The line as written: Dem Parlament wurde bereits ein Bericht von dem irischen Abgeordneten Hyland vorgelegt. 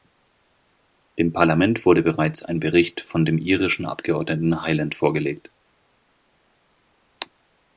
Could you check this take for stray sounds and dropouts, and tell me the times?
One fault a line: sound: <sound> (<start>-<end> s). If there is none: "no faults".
no faults